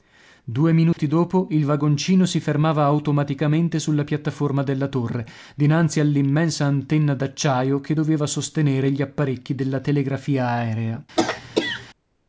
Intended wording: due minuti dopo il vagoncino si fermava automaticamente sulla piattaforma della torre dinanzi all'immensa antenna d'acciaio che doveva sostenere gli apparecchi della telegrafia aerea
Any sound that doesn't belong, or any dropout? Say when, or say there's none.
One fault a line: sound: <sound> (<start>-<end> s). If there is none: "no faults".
sound: dropout (0.9-1.0 s)
sound: throat clearing (11.2-11.9 s)